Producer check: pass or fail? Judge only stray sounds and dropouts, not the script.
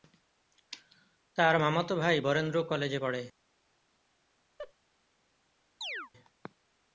fail